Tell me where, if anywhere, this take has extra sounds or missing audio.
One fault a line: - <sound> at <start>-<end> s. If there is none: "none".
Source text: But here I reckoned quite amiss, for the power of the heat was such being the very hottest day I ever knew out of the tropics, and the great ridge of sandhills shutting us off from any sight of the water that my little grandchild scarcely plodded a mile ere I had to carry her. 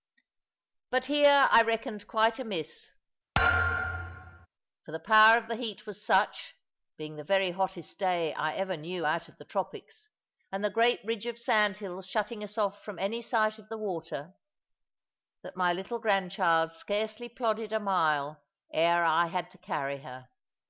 - thud at 3.3-4.5 s